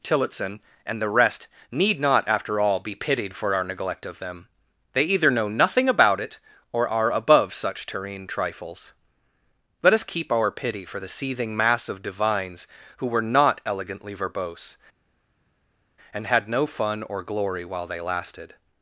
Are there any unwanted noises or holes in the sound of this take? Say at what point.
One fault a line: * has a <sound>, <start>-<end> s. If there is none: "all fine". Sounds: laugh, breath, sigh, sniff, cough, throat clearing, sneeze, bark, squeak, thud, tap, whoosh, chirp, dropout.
all fine